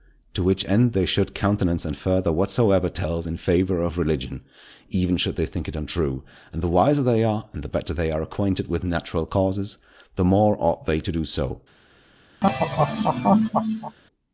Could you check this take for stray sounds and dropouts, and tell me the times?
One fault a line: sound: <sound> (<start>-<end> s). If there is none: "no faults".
sound: laugh (12.4-14.0 s)